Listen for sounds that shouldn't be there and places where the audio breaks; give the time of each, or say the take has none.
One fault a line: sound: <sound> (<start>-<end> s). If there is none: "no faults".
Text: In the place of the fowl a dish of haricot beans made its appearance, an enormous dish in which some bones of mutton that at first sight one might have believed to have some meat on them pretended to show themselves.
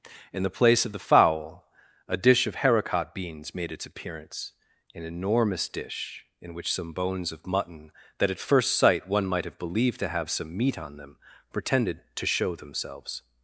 no faults